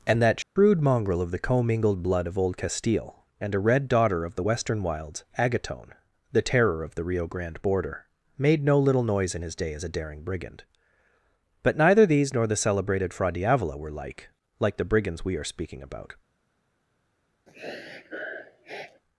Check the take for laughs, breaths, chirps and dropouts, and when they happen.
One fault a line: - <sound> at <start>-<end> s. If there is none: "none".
- dropout at 0.4-0.6 s
- sniff at 17.5-19.0 s